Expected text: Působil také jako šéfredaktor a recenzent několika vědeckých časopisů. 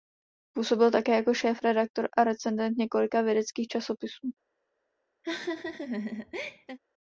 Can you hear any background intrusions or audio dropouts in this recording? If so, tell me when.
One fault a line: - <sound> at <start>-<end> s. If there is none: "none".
- laugh at 5.2-6.8 s